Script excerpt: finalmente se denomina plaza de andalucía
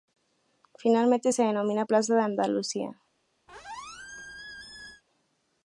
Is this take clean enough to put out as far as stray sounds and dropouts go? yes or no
no